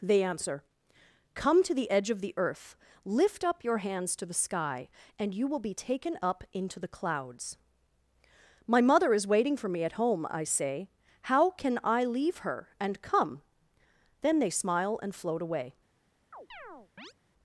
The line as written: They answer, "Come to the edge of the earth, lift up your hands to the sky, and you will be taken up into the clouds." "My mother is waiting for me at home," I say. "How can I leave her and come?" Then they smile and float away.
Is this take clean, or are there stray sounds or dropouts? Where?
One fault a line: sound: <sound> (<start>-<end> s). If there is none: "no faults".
sound: chirp (16.3-17.1 s)